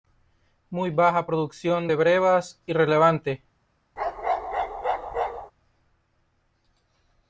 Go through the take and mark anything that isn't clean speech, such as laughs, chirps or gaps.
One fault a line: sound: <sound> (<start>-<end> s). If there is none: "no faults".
sound: bark (4.0-5.5 s)